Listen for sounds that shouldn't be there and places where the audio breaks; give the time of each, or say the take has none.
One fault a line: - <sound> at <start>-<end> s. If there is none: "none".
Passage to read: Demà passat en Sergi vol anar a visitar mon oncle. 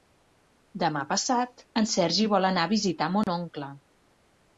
- dropout at 3.2-3.3 s